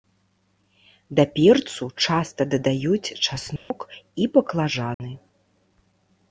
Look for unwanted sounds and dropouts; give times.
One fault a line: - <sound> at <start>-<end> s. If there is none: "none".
- dropout at 3.6-3.7 s
- dropout at 4.9-5.0 s